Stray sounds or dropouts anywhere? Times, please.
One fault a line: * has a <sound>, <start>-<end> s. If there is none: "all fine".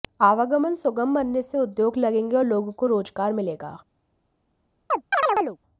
* has a chirp, 4.9-5.6 s